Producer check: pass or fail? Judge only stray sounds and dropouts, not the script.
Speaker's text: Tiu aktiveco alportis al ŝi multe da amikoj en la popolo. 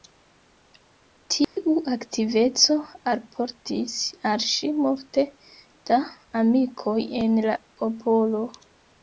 fail